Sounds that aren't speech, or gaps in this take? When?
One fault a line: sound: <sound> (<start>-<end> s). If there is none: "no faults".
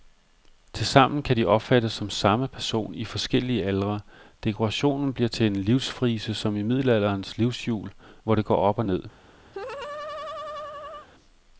sound: laugh (9.5-11.1 s)